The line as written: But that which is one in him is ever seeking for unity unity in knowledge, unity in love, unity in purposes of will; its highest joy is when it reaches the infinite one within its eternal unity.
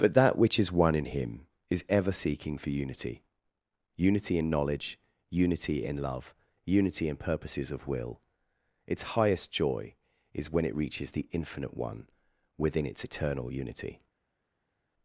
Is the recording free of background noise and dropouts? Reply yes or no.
yes